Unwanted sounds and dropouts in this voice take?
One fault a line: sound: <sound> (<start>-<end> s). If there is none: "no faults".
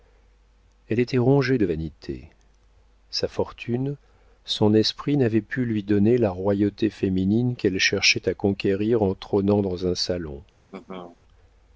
sound: laugh (10.7-11.2 s)